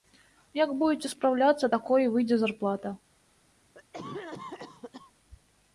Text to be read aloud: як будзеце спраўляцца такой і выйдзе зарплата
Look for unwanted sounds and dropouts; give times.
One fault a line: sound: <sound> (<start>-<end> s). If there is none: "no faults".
sound: cough (3.7-5.1 s)